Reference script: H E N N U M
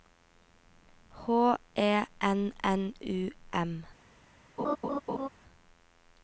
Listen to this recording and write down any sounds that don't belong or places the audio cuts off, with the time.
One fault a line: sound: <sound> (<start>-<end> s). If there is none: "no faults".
sound: laugh (4.6-5.3 s)